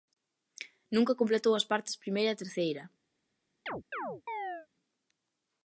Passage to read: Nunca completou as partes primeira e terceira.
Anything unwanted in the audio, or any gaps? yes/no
yes